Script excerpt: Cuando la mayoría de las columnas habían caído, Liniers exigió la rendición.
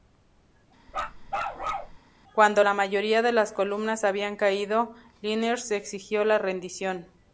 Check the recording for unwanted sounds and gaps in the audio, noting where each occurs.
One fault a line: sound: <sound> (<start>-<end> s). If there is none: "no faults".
sound: bark (0.9-2.0 s)